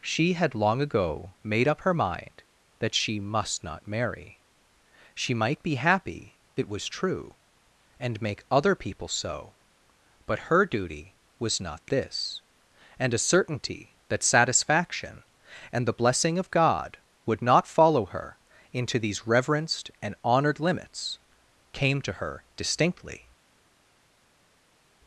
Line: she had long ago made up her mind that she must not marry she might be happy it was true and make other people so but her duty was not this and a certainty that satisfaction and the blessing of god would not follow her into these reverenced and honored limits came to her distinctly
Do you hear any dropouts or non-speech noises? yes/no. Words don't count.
no